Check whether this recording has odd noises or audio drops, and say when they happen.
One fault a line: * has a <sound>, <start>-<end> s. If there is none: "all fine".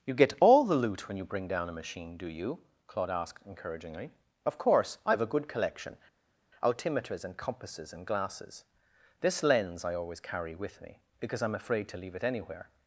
all fine